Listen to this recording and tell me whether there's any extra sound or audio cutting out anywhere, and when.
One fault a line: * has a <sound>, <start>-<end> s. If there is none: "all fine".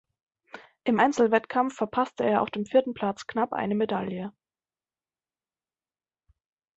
all fine